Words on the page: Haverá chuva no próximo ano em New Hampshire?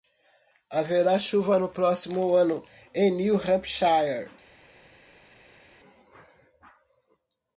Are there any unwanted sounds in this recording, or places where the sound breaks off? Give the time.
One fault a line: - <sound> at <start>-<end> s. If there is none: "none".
none